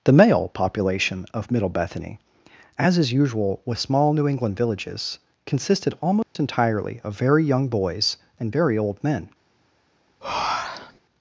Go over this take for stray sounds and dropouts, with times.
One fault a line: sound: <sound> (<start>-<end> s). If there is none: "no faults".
sound: dropout (6.2-6.4 s)
sound: breath (10.2-11.0 s)